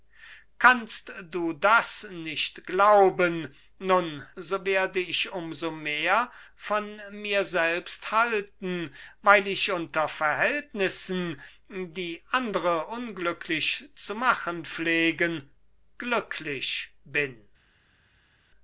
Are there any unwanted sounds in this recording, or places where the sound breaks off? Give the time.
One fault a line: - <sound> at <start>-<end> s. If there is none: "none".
none